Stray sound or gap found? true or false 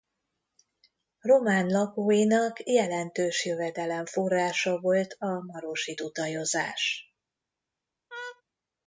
true